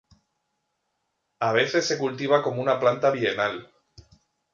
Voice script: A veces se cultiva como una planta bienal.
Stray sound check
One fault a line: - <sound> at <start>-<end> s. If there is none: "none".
none